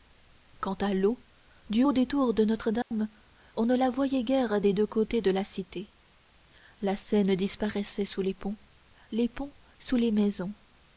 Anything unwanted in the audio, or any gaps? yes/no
yes